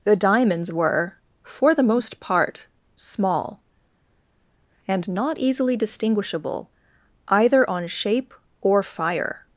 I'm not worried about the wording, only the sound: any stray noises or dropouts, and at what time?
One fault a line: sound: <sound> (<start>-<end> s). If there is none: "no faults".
no faults